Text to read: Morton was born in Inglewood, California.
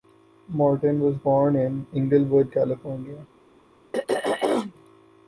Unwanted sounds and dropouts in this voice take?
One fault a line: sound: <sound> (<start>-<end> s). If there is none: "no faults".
sound: throat clearing (3.9-4.7 s)